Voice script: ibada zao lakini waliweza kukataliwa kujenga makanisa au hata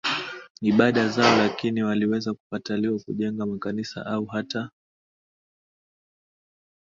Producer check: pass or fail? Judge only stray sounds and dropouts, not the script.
pass